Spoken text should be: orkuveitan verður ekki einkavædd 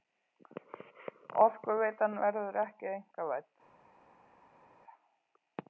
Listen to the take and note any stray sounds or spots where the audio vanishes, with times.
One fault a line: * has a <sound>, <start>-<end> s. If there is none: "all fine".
all fine